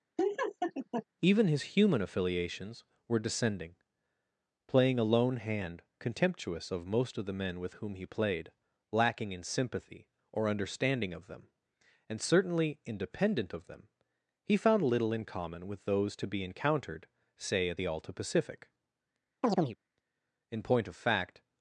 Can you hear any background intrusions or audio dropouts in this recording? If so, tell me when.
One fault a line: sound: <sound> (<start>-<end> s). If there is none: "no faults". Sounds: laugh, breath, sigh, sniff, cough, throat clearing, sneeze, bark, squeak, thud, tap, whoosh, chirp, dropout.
sound: laugh (0.2-1.0 s)
sound: chirp (19.4-19.8 s)